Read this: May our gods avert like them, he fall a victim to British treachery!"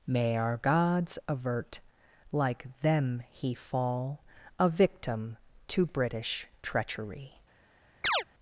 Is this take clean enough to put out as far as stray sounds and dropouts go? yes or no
no